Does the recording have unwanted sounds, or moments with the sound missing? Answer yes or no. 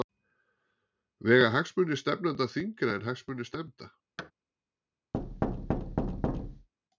yes